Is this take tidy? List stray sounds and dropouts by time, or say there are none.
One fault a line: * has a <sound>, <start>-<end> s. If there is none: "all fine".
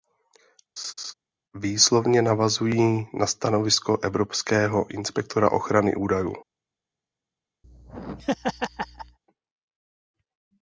* has a laugh, 0.8-1.1 s
* has a laugh, 7.6-9.2 s